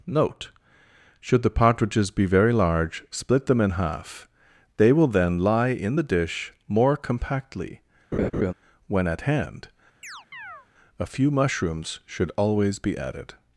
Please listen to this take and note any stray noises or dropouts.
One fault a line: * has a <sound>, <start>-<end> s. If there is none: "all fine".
* has a laugh, 8.1-8.5 s
* has a chirp, 10.0-10.7 s